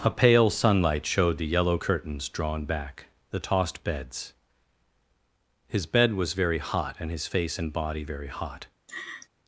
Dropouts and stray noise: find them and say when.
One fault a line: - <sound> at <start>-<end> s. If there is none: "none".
- laugh at 8.9-9.3 s